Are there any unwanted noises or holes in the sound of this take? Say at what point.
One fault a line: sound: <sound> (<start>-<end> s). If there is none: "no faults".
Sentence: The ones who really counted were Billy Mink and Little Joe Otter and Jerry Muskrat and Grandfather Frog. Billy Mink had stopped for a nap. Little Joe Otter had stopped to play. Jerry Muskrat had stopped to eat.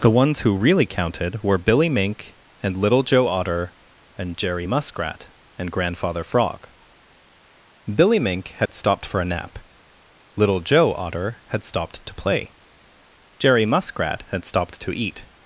sound: dropout (8.7-8.7 s)